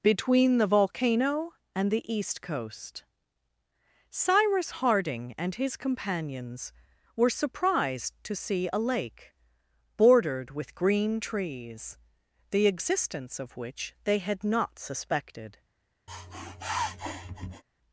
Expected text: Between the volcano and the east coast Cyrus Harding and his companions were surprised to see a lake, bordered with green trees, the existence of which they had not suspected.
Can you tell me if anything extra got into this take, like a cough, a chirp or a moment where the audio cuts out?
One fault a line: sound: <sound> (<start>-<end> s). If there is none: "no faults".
sound: sniff (16.1-17.6 s)